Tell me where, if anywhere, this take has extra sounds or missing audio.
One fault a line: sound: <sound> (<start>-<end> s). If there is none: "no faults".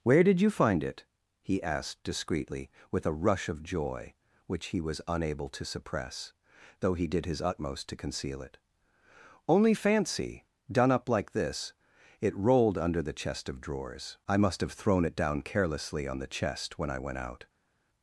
no faults